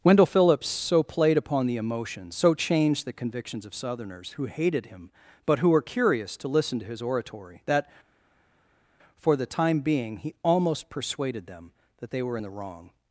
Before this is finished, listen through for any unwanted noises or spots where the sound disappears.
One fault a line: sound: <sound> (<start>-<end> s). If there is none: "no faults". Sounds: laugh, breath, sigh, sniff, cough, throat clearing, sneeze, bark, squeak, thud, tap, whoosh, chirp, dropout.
no faults